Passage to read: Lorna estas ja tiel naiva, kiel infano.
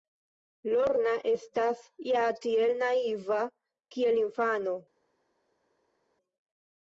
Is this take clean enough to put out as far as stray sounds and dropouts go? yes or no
yes